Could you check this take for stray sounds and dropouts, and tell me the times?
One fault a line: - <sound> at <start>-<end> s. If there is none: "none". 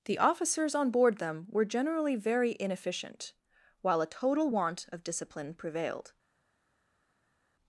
none